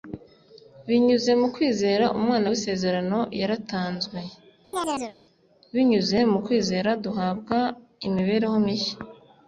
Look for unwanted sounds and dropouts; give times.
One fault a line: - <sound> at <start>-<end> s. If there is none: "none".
- chirp at 4.7-5.2 s